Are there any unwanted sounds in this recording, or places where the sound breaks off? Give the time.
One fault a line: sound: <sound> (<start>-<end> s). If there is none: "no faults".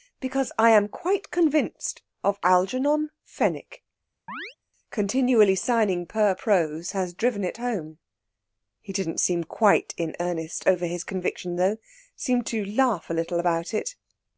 sound: chirp (4.3-4.6 s)